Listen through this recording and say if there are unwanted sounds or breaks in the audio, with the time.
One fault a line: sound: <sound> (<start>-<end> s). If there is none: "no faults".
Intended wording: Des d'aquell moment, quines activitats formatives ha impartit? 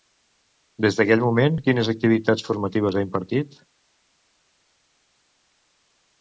no faults